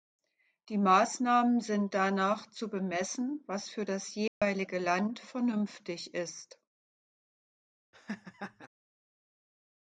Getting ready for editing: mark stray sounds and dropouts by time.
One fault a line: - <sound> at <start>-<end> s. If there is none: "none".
- dropout at 4.3-4.4 s
- laugh at 7.9-8.7 s